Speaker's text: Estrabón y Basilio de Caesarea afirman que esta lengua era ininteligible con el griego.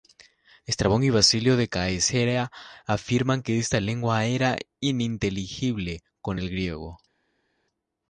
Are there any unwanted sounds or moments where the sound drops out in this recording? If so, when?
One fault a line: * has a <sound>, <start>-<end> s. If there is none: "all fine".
all fine